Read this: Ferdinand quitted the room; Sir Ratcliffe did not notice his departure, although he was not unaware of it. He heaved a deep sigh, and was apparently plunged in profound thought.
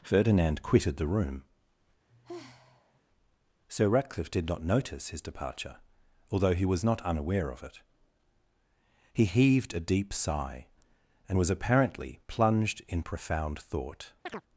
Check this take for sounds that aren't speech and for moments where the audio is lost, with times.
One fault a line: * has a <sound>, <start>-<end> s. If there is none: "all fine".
* has a sigh, 2.1-3.0 s
* has a chirp, 14.3-14.4 s